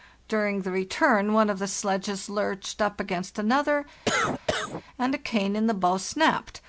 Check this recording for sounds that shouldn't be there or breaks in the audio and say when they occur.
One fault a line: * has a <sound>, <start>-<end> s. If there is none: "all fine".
* has a cough, 4.1-4.8 s